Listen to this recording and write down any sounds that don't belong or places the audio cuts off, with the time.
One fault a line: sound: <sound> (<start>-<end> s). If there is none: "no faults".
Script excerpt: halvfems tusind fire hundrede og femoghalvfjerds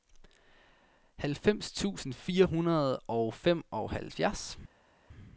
no faults